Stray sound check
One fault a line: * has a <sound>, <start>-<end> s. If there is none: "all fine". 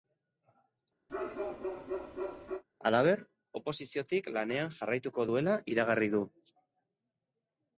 * has a bark, 1.1-2.6 s